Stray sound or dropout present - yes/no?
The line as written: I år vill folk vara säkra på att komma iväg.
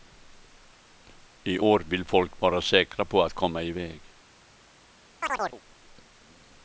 yes